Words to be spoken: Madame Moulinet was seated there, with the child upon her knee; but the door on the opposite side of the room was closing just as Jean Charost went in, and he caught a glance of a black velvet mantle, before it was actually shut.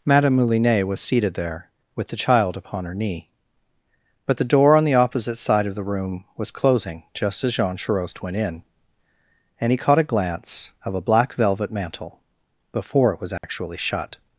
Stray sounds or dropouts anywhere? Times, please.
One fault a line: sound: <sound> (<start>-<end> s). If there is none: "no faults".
sound: dropout (13.4-13.4 s)